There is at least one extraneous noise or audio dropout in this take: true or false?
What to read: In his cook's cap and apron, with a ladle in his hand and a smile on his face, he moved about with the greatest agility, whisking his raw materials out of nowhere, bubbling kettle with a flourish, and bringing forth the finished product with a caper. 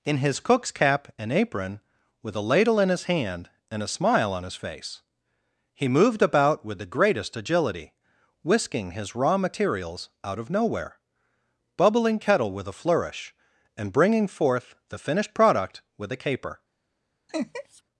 true